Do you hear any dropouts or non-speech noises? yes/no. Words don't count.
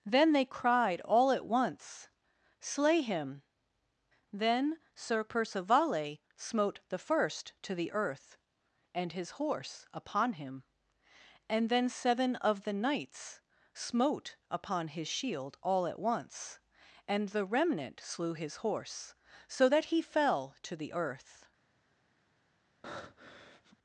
yes